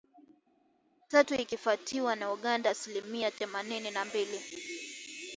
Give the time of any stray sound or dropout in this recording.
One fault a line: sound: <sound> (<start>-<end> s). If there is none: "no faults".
no faults